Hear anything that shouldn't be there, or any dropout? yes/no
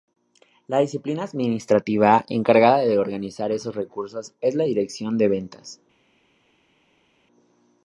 no